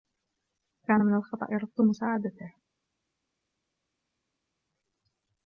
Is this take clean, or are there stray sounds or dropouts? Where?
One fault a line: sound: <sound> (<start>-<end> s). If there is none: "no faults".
no faults